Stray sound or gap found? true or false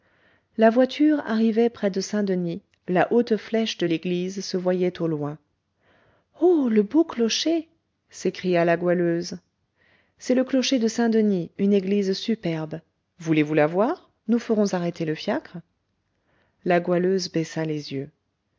false